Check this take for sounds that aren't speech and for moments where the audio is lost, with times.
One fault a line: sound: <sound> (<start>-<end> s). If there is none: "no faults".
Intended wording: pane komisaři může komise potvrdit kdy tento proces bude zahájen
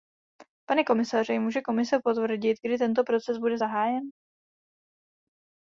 no faults